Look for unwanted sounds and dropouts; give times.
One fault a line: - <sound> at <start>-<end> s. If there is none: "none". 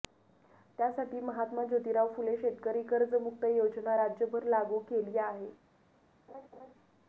- laugh at 6.3-6.7 s